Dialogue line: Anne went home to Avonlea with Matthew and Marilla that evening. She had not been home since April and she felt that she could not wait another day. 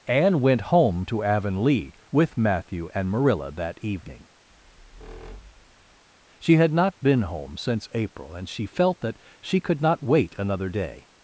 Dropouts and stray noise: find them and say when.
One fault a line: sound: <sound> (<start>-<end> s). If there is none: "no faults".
sound: squeak (4.5-6.0 s)